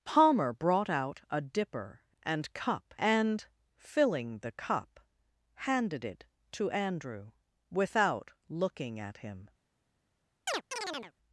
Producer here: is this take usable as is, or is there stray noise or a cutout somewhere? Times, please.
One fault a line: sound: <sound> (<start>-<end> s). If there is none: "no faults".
sound: chirp (10.5-11.1 s)